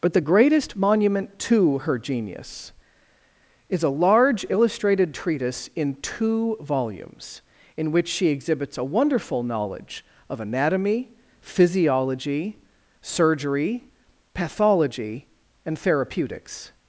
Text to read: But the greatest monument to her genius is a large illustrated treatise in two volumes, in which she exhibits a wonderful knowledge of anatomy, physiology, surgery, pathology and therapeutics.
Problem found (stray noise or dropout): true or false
false